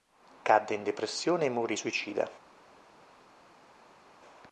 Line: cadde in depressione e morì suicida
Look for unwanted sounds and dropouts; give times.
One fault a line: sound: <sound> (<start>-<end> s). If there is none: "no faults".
no faults